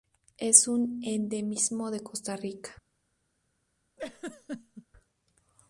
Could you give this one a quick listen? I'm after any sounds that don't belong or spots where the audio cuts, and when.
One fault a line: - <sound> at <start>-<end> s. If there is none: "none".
- laugh at 4.0-4.9 s